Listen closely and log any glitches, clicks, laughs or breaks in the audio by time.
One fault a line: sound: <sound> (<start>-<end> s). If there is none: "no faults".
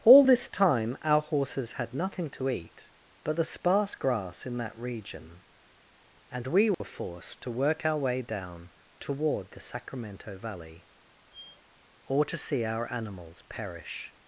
sound: dropout (6.7-6.8 s)
sound: squeak (11.3-11.6 s)